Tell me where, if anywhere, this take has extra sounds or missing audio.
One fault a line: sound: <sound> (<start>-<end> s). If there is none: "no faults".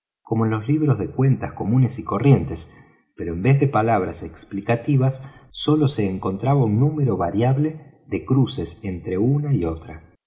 no faults